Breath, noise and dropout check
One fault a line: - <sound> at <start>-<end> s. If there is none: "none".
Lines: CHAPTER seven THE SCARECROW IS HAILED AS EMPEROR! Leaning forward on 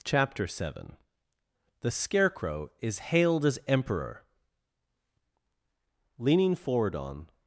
none